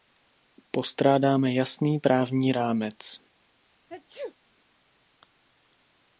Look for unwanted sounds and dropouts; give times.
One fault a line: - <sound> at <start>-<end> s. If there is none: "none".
- sneeze at 3.9-4.3 s